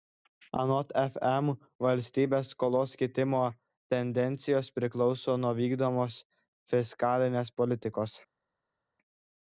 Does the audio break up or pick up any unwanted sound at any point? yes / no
no